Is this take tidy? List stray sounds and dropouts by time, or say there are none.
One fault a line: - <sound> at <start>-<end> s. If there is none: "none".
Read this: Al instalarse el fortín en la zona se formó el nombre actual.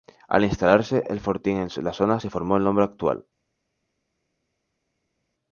none